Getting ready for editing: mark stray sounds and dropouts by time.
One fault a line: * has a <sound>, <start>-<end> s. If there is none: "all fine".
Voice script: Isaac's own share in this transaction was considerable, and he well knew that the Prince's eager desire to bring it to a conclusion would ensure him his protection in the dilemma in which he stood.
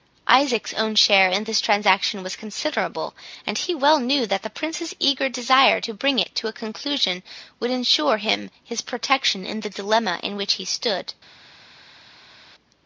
all fine